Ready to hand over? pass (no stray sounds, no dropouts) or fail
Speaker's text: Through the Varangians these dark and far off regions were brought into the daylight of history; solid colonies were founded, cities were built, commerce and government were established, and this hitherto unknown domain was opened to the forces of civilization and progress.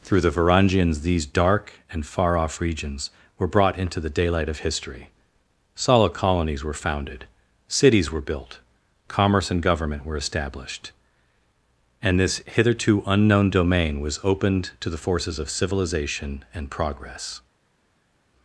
pass